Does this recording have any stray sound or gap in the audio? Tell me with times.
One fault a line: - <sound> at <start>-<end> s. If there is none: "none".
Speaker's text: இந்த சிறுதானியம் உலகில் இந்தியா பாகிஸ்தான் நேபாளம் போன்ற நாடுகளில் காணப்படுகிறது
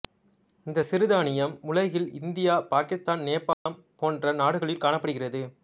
- dropout at 3.5-3.7 s